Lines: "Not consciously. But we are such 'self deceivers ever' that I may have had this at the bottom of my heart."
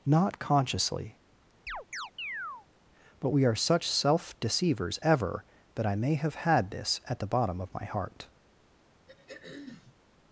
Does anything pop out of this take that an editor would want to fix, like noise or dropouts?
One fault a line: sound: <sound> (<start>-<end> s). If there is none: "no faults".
sound: chirp (1.7-2.7 s)
sound: throat clearing (9.1-9.9 s)